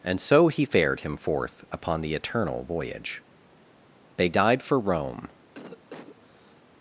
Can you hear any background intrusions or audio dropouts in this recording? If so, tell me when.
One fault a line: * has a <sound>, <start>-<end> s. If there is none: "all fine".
* has a cough, 5.5-6.6 s